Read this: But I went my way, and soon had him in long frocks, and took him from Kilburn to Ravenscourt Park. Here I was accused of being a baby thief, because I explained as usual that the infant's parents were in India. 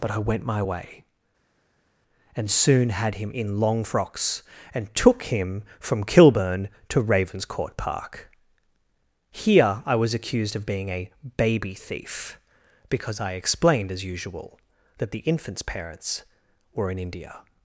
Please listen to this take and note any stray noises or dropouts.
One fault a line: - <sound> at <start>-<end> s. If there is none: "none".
none